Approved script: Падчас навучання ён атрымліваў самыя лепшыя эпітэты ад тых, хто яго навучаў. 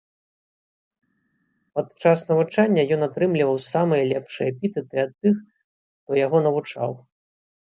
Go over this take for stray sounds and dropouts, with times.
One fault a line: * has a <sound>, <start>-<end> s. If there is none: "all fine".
all fine